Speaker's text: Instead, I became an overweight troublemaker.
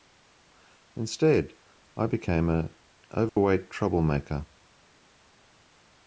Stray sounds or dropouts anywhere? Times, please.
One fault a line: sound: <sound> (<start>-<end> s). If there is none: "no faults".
sound: dropout (3.3-3.4 s)